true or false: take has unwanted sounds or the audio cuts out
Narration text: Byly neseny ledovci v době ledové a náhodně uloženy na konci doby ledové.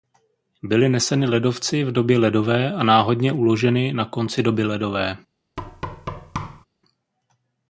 true